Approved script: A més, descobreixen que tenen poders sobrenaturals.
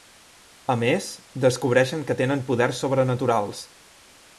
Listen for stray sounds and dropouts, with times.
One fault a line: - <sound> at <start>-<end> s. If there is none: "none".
none